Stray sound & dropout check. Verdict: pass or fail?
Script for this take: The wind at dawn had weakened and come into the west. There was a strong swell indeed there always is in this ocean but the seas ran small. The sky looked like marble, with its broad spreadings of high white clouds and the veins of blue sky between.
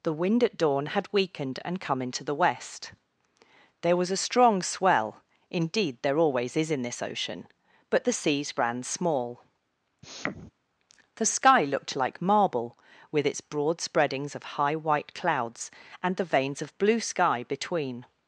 fail